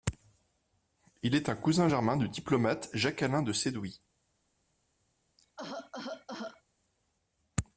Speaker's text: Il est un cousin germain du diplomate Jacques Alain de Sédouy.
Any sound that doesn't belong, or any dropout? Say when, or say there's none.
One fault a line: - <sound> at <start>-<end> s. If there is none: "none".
- cough at 5.4-6.6 s